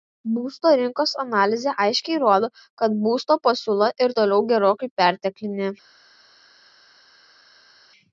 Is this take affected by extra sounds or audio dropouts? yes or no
no